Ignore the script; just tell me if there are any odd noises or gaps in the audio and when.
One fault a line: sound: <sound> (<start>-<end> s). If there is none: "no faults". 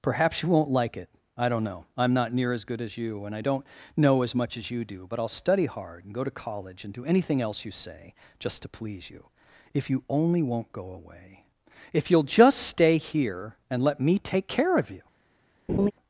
sound: laugh (15.7-15.9 s)